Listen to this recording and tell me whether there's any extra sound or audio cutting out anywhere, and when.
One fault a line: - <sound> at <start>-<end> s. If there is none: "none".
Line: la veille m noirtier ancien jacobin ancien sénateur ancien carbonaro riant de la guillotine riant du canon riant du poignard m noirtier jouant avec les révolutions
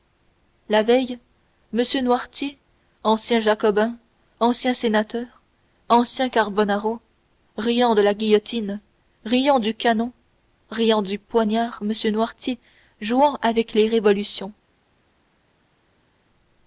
none